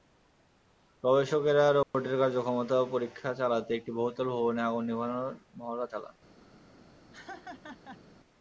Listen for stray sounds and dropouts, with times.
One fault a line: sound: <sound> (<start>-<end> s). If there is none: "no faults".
sound: dropout (1.8-1.9 s)
sound: laugh (7.1-8.0 s)